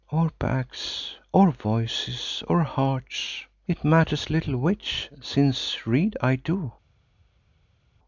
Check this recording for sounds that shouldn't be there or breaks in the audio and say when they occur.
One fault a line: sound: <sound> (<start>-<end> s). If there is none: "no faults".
no faults